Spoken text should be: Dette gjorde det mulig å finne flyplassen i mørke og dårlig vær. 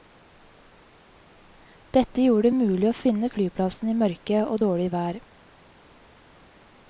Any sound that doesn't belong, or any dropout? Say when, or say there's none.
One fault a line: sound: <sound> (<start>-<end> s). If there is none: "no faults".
no faults